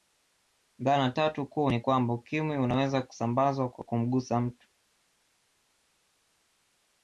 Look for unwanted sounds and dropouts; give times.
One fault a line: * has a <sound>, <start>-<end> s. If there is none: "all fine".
all fine